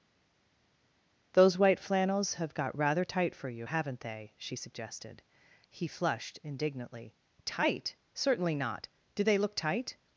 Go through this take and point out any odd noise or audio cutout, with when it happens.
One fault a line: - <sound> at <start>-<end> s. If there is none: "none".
none